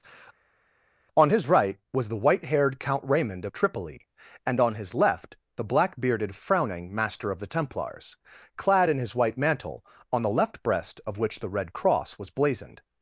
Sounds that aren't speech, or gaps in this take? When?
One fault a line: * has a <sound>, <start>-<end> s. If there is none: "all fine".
all fine